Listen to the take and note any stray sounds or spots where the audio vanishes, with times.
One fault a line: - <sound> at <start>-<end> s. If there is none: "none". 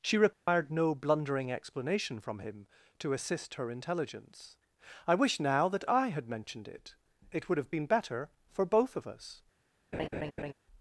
- dropout at 0.3-0.5 s
- laugh at 9.9-10.5 s